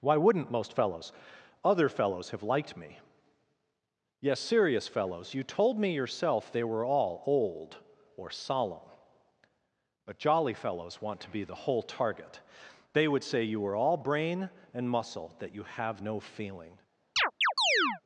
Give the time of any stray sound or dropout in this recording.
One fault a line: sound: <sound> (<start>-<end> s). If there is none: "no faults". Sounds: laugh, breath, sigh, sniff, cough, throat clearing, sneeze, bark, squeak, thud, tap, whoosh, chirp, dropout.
sound: chirp (17.2-18.0 s)